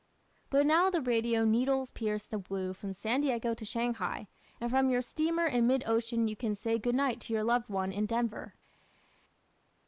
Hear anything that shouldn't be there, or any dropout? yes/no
no